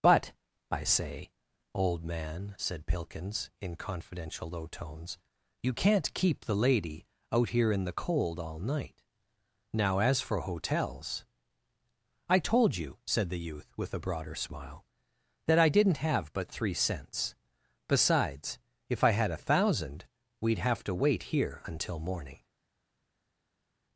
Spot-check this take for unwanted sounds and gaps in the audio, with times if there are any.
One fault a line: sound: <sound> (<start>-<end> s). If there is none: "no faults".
no faults